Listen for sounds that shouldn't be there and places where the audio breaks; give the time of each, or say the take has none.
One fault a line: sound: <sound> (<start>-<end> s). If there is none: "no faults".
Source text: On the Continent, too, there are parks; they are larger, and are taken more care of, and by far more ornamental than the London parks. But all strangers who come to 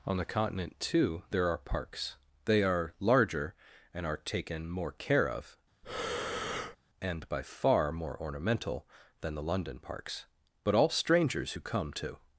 sound: breath (5.8-6.8 s)